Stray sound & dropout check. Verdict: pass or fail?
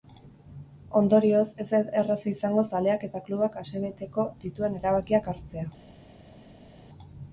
pass